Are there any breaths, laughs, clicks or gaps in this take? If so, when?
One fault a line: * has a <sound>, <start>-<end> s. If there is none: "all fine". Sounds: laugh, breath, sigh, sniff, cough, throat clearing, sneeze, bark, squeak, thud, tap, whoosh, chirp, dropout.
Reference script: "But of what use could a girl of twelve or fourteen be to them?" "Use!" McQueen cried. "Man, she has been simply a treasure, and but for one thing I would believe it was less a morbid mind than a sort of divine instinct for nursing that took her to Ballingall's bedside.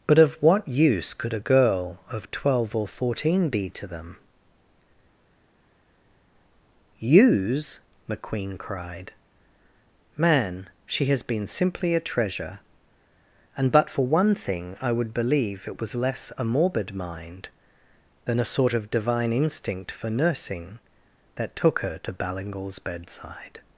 all fine